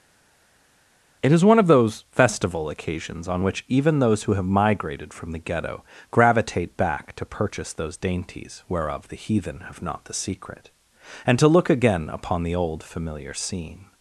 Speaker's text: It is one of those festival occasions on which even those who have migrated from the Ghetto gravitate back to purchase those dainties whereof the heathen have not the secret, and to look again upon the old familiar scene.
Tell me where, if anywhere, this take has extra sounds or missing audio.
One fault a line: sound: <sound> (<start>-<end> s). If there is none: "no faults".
no faults